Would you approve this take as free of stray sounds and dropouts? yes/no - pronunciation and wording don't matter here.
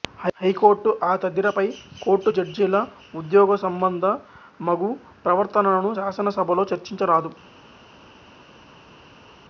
yes